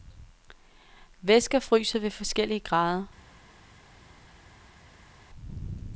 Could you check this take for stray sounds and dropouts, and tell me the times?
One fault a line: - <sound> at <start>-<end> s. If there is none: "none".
none